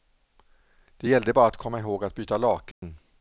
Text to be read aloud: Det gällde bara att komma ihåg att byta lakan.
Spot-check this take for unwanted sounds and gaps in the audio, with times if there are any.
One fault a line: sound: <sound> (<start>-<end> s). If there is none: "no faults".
sound: dropout (2.7-2.8 s)